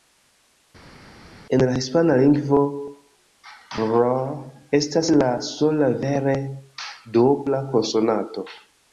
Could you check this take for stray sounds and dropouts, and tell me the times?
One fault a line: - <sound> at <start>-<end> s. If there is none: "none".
none